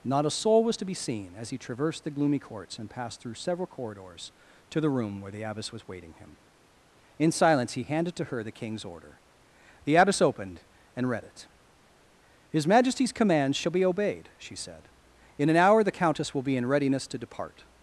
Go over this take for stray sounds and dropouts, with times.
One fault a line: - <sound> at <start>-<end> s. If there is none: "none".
none